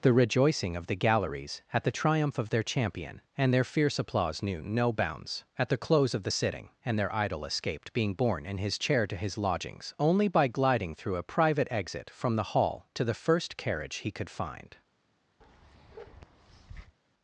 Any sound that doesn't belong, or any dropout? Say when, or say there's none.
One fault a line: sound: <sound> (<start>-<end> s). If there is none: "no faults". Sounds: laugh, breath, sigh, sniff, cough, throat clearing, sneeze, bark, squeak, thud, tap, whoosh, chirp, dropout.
sound: bark (15.4-17.0 s)